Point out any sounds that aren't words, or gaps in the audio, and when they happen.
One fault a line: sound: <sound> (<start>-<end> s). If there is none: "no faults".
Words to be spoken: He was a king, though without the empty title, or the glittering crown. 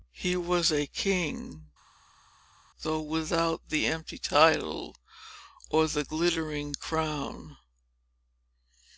no faults